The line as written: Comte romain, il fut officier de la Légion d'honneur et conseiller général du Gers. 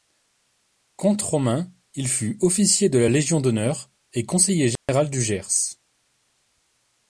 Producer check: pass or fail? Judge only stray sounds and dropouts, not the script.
fail